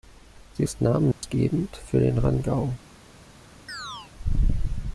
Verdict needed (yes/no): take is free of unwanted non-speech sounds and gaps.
no